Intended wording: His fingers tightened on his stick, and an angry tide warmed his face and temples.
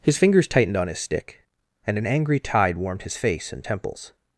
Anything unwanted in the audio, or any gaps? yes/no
no